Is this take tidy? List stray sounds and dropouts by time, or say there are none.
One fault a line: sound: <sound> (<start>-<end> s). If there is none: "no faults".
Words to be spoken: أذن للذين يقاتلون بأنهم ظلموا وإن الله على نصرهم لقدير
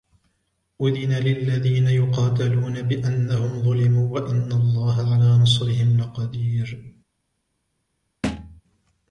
sound: thud (8.2-8.6 s)